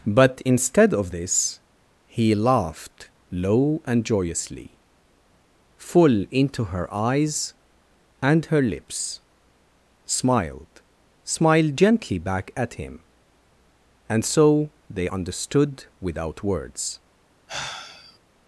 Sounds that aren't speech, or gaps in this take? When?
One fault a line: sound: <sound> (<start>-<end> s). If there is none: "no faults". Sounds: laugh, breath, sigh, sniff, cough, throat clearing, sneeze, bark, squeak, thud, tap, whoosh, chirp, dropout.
sound: sigh (17.5-18.2 s)